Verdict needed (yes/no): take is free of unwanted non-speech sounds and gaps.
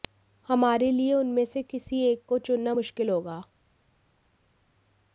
yes